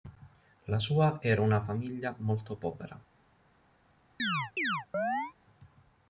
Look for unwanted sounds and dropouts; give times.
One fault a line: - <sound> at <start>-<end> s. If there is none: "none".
- chirp at 4.2-5.3 s